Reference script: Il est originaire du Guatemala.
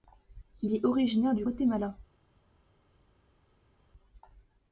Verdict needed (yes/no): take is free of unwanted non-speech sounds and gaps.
yes